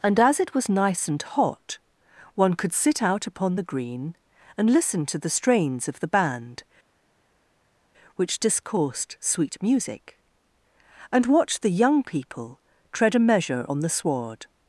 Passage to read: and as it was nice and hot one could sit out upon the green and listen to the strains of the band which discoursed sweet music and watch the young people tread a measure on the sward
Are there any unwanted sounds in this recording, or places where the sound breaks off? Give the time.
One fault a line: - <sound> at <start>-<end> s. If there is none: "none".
none